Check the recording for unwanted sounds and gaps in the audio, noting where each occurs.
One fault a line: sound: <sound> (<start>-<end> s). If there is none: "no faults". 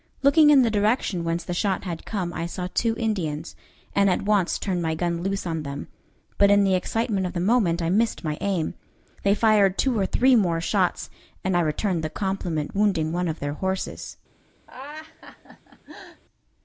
sound: laugh (14.7-16.2 s)